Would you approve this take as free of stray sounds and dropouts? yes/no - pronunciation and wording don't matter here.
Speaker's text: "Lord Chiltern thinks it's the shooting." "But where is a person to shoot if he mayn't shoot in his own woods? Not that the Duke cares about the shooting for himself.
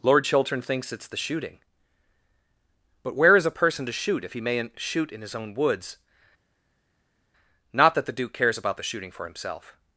yes